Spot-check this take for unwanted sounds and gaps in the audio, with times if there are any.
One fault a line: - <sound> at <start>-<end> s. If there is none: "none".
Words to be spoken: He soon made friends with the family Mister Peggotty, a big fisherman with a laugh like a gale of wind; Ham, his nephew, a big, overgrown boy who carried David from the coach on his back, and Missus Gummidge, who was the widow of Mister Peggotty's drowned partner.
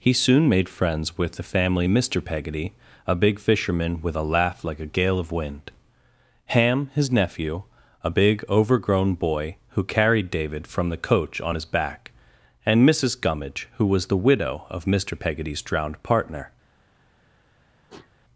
- sniff at 17.9-18.1 s